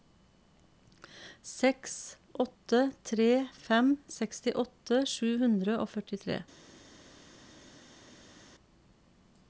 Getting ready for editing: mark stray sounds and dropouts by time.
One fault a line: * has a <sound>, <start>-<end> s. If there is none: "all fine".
all fine